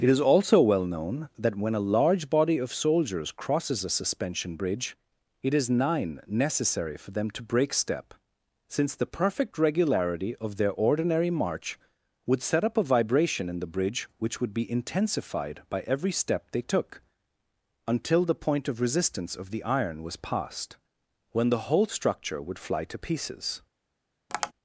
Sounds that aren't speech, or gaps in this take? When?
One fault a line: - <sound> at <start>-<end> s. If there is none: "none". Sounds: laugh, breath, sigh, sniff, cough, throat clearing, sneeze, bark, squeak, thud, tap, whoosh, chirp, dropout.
- tap at 24.3-24.5 s